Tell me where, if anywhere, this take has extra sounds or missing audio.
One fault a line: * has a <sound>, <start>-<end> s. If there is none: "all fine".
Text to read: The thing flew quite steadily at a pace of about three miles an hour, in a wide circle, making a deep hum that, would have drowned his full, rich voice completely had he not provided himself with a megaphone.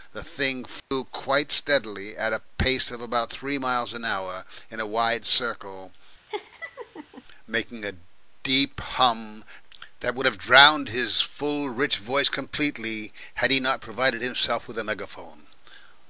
* has a dropout, 0.8-0.9 s
* has a laugh, 6.3-7.2 s